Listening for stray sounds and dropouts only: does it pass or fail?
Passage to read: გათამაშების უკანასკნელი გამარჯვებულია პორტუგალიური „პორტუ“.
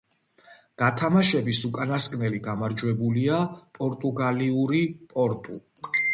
pass